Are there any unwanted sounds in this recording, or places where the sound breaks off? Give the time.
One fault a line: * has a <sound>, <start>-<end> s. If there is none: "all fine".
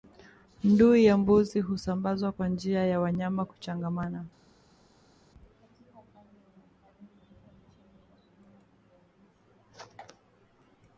all fine